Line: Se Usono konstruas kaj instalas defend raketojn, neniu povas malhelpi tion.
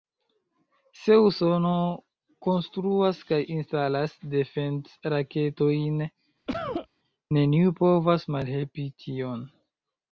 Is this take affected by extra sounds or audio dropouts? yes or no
yes